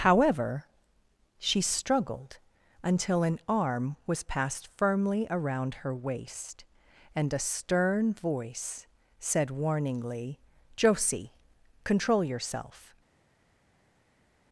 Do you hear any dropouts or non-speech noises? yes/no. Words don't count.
no